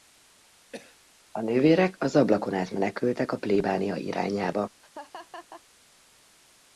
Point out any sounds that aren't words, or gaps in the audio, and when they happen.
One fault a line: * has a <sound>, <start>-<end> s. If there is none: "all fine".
* has a cough, 0.7-1.0 s
* has a laugh, 4.8-5.6 s